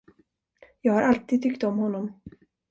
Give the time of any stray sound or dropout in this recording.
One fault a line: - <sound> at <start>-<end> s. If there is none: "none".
none